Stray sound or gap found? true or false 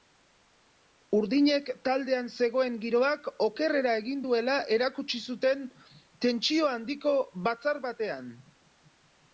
false